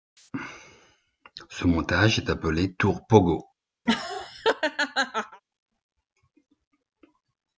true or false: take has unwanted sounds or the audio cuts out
true